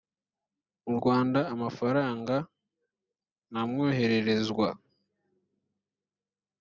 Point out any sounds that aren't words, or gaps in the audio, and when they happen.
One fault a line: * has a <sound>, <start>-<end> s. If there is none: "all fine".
all fine